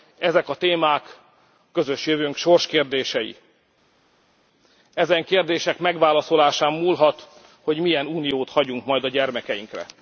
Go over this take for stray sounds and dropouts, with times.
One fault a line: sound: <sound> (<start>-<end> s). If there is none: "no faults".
no faults